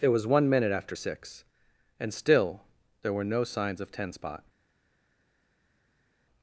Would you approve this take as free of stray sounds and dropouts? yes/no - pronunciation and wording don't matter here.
yes